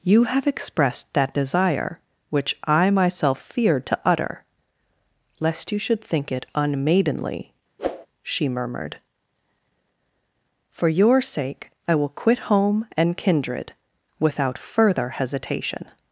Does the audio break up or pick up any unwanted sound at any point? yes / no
yes